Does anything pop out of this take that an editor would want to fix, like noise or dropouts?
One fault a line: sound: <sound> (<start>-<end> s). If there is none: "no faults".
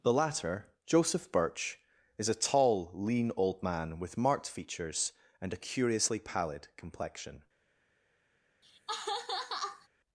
sound: laugh (8.6-9.9 s)